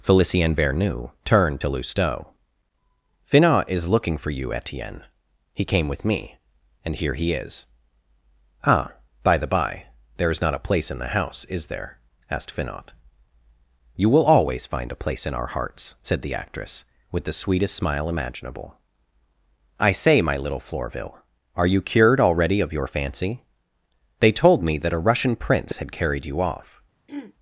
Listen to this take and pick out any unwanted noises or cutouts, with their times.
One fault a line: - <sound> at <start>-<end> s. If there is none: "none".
- throat clearing at 27.1-27.3 s